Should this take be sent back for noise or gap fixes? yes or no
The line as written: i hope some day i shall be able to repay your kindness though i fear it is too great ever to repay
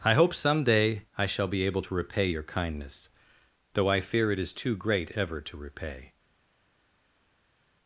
no